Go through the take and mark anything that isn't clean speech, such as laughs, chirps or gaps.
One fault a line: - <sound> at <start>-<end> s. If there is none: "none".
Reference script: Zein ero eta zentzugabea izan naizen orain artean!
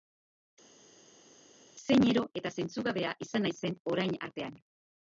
none